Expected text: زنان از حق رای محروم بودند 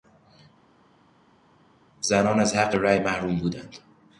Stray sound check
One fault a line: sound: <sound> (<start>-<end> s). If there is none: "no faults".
no faults